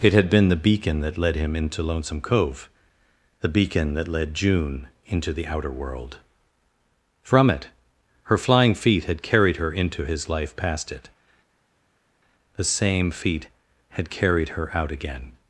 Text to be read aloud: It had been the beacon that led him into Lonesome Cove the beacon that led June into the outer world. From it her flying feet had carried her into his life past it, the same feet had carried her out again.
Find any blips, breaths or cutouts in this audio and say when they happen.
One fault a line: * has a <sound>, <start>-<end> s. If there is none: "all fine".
all fine